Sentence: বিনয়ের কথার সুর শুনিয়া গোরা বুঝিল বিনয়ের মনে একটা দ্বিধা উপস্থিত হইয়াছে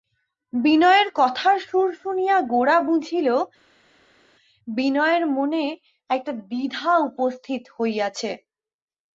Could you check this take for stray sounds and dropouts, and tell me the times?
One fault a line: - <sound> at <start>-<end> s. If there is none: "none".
none